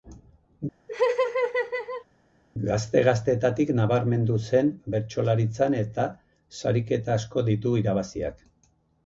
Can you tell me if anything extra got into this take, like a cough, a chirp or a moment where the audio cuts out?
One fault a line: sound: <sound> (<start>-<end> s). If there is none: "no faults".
sound: laugh (0.9-2.1 s)